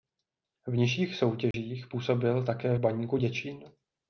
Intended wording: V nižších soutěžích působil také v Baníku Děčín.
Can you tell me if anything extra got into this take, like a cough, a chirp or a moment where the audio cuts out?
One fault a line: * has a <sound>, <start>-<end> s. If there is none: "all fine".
* has a dropout, 1.5-1.5 s